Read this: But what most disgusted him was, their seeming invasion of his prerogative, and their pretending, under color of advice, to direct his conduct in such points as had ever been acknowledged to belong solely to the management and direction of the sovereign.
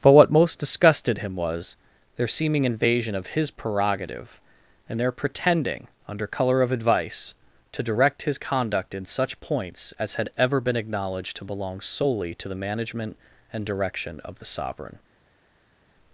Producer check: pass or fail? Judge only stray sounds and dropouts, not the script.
pass